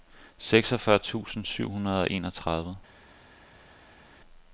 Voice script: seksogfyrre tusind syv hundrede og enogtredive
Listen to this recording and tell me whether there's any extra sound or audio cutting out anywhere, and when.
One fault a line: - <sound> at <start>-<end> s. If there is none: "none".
none